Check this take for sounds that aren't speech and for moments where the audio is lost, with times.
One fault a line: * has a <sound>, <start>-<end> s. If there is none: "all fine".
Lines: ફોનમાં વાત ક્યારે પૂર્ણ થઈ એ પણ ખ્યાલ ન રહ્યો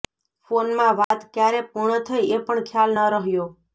* has a dropout, 1.0-1.1 s